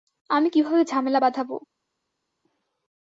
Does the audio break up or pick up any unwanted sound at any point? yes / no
no